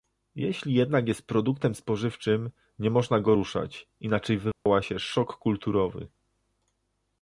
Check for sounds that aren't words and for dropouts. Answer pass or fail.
fail